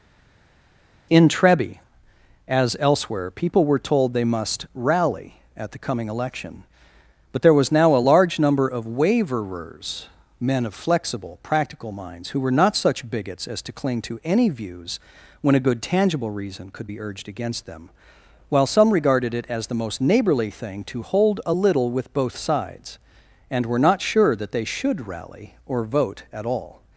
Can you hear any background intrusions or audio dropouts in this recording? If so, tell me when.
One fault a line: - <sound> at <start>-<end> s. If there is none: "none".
none